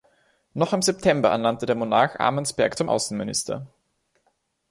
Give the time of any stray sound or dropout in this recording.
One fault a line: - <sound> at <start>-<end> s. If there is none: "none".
none